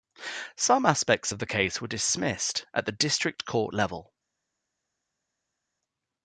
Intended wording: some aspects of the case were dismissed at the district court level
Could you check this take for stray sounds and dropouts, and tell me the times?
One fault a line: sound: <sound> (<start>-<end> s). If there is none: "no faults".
no faults